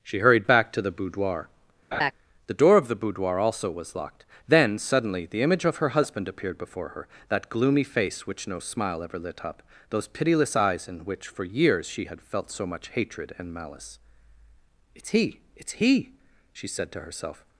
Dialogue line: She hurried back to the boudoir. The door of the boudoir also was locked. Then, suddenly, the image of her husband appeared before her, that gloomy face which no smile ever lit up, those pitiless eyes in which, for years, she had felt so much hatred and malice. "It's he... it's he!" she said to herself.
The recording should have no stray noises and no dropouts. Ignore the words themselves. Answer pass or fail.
fail